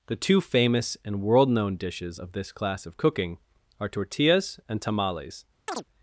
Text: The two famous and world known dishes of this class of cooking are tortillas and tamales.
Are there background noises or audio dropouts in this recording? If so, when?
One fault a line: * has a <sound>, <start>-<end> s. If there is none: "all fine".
* has a chirp, 5.7-5.8 s